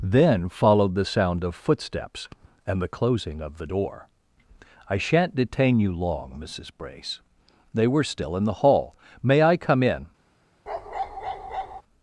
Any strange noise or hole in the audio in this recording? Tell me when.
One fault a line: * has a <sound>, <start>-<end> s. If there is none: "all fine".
* has a bark, 10.7-11.8 s